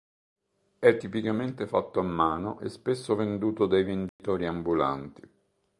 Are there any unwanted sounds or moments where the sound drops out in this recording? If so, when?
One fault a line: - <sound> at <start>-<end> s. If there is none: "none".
- dropout at 4.1-4.2 s